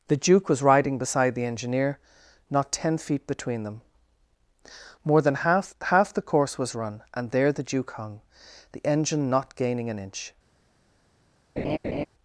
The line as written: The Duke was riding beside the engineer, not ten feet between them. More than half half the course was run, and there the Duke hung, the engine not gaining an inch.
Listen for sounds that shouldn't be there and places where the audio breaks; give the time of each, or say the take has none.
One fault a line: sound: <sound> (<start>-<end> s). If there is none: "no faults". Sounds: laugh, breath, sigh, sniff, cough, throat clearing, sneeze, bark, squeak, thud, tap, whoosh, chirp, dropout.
sound: laugh (11.6-12.1 s)